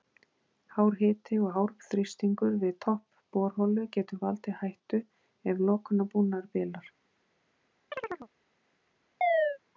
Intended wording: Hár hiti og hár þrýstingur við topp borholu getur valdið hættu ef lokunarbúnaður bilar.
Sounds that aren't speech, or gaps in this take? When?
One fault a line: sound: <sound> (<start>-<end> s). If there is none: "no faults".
sound: chirp (7.9-8.3 s)
sound: chirp (9.2-9.6 s)